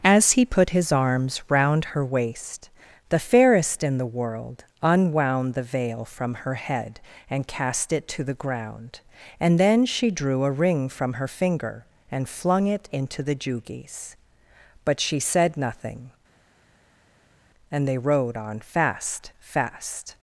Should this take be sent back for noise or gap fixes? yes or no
no